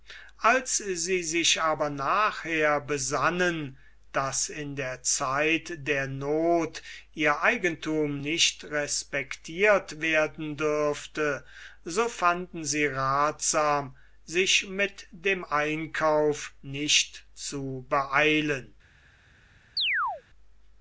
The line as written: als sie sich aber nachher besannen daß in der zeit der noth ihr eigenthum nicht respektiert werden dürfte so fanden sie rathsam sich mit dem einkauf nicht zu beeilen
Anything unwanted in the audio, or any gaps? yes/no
yes